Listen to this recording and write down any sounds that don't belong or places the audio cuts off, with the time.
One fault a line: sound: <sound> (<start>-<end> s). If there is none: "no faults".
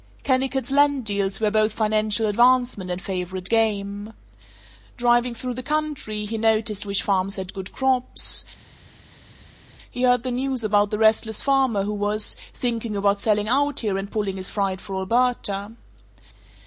no faults